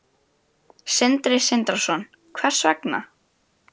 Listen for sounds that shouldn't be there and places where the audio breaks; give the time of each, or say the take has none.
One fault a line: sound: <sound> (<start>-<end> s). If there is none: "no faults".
no faults